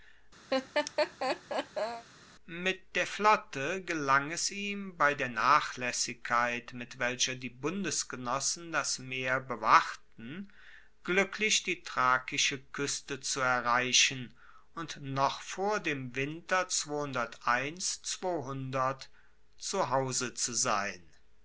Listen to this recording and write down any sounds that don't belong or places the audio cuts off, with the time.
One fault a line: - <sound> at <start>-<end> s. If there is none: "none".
- laugh at 0.5-2.1 s